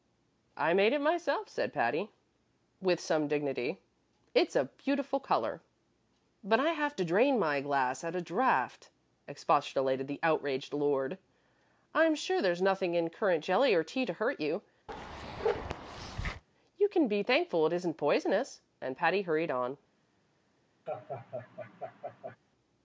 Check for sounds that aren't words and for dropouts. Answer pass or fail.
fail